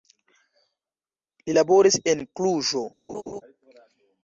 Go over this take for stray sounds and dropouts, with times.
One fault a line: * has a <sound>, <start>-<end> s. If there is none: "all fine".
* has a laugh, 3.1-3.4 s